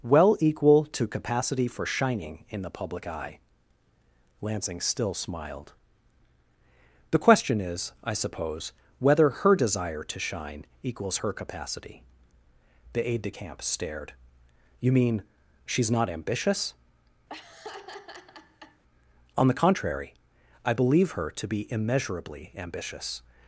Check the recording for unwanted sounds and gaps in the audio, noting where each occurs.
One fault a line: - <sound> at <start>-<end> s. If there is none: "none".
- laugh at 17.3-18.8 s